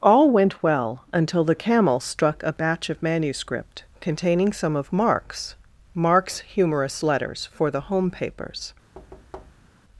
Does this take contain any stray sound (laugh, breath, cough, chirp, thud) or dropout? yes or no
yes